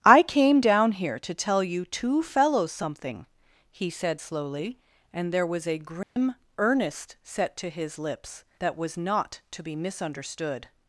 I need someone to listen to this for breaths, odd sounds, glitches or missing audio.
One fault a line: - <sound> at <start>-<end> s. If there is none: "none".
- dropout at 6.0-6.2 s